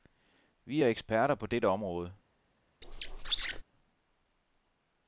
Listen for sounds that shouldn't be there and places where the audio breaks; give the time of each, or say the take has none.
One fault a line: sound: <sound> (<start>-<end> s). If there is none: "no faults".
sound: squeak (2.8-3.6 s)